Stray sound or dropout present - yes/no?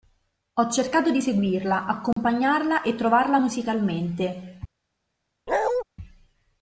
yes